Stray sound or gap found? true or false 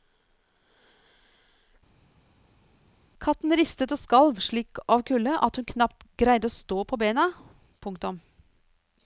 false